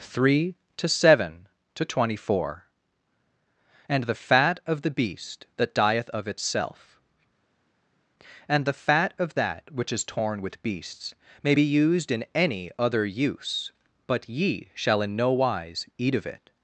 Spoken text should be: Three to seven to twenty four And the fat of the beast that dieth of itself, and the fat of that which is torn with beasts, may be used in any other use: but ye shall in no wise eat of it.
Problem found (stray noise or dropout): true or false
false